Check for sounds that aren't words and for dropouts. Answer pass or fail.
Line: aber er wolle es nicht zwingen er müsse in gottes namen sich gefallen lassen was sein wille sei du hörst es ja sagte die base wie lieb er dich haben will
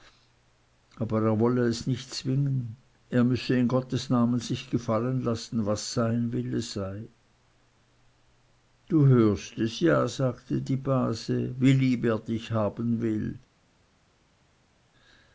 pass